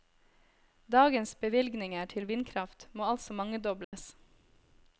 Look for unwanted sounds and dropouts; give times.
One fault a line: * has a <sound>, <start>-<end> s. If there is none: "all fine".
* has a dropout, 3.8-3.9 s